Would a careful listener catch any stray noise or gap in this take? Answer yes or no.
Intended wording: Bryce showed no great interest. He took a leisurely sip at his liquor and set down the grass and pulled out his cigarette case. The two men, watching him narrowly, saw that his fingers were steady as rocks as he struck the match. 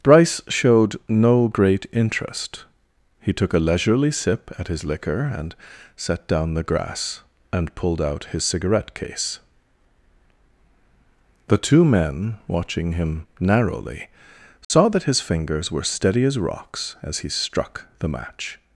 yes